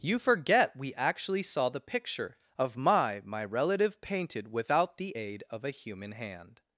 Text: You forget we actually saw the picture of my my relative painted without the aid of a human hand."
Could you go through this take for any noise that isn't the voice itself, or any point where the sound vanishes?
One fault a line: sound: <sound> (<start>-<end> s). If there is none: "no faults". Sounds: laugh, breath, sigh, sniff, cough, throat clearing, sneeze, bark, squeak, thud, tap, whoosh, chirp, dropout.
no faults